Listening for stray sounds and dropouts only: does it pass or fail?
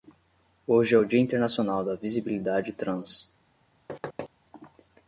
fail